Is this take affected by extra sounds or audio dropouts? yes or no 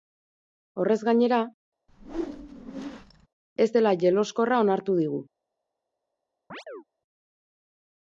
yes